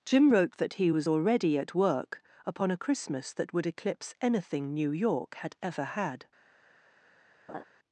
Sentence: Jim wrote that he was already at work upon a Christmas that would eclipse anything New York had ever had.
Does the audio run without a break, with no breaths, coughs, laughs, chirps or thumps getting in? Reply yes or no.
no